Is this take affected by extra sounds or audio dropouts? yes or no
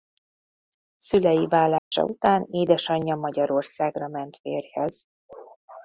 yes